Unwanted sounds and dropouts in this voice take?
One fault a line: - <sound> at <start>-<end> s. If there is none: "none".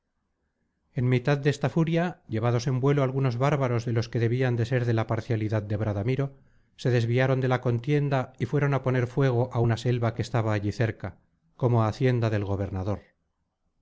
none